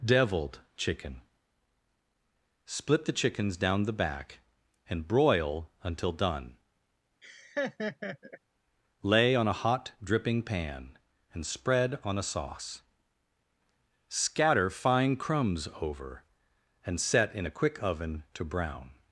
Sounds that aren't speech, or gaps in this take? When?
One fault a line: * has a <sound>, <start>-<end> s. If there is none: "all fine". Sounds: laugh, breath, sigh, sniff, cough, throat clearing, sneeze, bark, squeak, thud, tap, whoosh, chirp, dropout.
* has a laugh, 7.2-8.4 s